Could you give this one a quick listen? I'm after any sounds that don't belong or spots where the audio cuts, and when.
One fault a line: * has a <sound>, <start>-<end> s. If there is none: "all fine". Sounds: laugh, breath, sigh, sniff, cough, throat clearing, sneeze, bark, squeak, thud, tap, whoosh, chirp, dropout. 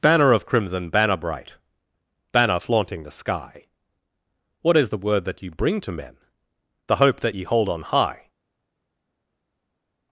all fine